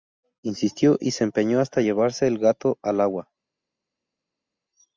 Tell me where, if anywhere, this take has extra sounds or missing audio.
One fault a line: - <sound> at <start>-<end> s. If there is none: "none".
none